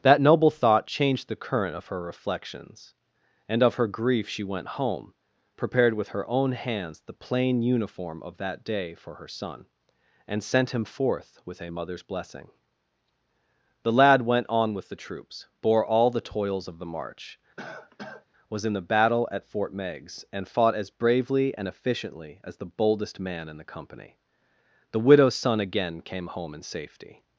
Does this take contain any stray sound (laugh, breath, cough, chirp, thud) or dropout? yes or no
yes